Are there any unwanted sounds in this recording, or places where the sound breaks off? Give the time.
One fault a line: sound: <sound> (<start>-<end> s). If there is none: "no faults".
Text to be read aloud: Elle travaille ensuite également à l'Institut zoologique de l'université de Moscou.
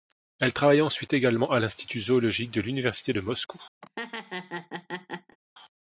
sound: laugh (3.8-5.4 s)